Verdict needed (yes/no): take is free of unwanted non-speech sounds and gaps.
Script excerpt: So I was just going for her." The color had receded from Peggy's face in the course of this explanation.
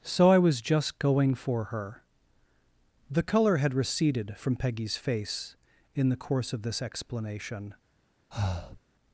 no